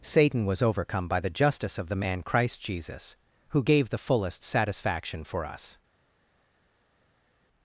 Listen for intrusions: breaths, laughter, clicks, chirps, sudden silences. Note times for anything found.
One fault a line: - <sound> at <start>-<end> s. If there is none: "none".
none